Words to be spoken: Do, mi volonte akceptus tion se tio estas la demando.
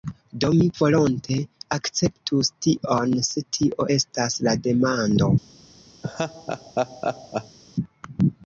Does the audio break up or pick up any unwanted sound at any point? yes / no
yes